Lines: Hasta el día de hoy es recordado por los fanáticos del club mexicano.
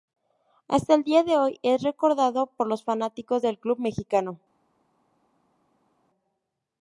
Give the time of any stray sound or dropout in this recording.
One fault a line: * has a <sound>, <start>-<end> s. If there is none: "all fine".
all fine